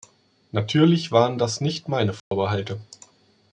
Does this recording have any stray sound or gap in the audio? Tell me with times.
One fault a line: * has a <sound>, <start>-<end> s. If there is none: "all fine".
* has a dropout, 2.2-2.3 s